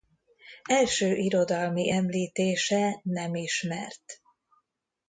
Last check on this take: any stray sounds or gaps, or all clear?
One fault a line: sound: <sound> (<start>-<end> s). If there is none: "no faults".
no faults